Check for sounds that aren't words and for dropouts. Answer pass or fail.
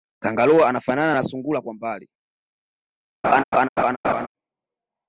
fail